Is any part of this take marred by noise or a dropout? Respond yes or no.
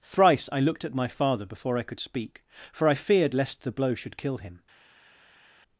no